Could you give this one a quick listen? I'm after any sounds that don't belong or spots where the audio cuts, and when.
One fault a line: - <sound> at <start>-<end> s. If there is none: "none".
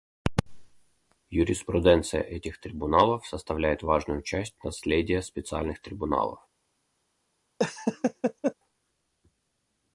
- laugh at 7.6-8.5 s